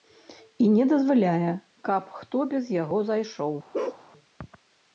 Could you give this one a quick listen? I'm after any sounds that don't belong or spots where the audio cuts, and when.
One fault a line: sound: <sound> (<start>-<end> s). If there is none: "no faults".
sound: bark (3.7-4.1 s)